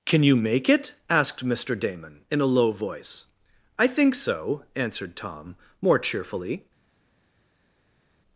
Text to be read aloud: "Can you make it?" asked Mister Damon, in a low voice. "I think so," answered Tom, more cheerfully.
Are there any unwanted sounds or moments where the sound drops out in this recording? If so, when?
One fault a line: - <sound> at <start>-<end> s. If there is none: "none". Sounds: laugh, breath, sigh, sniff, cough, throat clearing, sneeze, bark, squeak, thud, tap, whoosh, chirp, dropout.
none